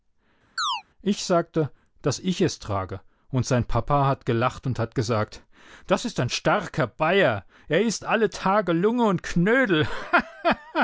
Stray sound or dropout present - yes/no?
yes